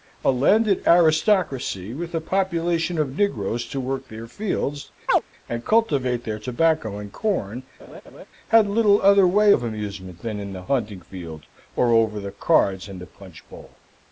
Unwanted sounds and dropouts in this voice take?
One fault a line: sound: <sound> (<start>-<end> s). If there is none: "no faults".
sound: chirp (5.1-5.2 s)
sound: laugh (7.8-8.2 s)